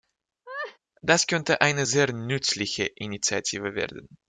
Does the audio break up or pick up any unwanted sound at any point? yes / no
yes